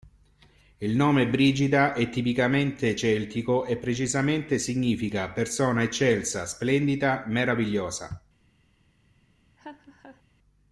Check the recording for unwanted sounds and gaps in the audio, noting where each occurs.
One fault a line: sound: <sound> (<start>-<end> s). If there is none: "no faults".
sound: laugh (9.6-10.2 s)